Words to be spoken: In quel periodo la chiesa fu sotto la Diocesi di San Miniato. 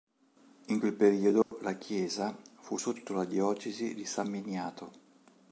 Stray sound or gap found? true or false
true